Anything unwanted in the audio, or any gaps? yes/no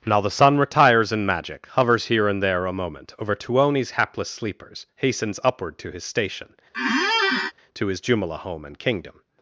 yes